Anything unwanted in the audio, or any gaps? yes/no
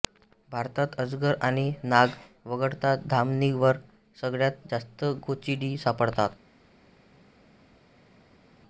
no